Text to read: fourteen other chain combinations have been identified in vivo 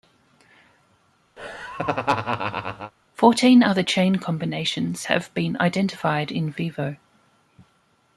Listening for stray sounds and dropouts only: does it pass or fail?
fail